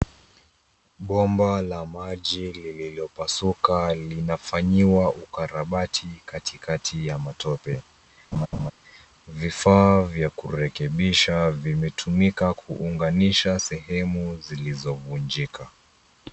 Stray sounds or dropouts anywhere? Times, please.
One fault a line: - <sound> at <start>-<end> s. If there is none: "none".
- laugh at 8.3-8.7 s